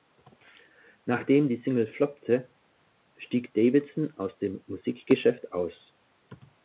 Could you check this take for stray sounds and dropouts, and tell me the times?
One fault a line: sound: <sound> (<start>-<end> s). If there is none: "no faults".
no faults